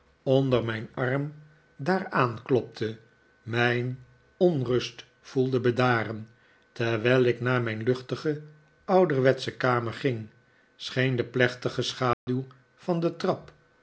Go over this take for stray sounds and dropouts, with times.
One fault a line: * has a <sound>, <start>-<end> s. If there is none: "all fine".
* has a dropout, 12.1-12.3 s